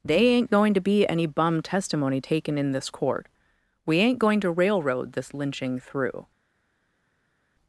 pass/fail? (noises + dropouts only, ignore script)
pass